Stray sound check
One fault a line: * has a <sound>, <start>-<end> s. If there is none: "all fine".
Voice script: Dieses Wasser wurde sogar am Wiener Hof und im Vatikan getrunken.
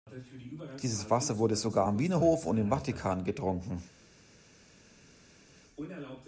all fine